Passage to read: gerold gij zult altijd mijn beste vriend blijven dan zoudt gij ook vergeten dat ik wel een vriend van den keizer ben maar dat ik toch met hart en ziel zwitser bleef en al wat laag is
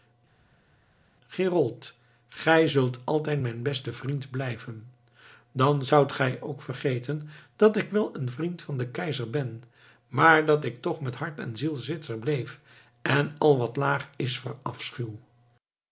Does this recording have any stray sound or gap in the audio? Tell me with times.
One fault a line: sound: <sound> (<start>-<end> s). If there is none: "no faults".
no faults